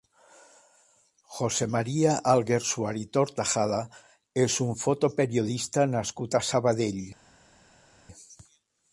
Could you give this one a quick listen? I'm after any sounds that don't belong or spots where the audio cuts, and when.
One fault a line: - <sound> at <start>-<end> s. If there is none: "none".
none